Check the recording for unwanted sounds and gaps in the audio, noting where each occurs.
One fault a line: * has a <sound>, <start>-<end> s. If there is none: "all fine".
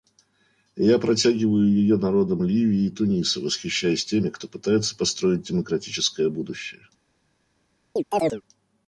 * has a chirp, 8.0-8.4 s